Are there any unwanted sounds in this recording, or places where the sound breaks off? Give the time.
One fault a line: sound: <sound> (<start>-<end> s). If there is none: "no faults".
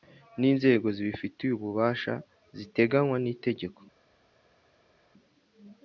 no faults